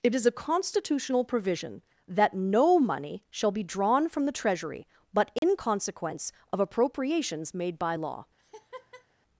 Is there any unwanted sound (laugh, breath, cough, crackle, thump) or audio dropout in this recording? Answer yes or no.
yes